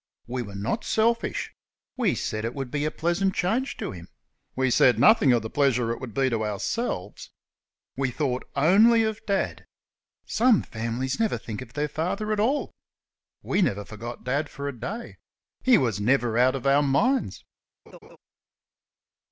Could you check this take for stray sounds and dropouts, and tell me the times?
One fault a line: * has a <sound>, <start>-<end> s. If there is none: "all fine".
* has a laugh, 17.9-18.2 s